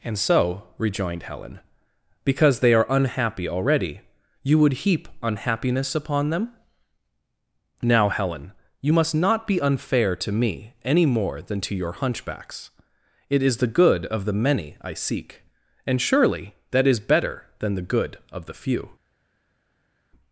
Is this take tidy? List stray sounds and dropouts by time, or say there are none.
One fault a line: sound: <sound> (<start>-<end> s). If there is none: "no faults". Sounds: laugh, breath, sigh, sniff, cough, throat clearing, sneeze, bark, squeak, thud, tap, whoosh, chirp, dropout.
no faults